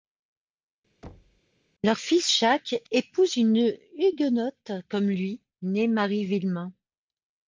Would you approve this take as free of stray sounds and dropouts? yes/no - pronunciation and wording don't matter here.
no